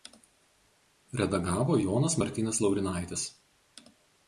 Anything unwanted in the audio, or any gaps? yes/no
no